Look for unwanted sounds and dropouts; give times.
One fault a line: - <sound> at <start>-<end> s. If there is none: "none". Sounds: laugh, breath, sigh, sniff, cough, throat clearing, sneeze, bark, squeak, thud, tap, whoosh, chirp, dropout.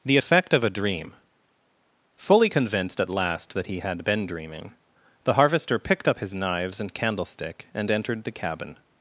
none